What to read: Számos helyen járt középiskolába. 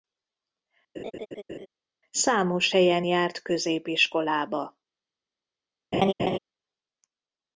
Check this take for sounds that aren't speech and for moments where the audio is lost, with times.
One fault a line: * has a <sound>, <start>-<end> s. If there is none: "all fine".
* has a laugh, 0.9-1.7 s
* has a laugh, 5.9-6.4 s